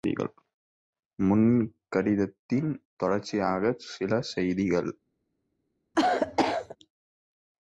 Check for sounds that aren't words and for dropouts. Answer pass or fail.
fail